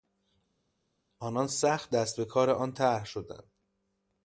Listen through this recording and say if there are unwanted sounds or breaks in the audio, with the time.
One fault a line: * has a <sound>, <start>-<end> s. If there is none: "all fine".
all fine